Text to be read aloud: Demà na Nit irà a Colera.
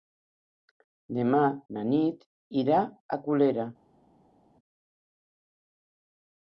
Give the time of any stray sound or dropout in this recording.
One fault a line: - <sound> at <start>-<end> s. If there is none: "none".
none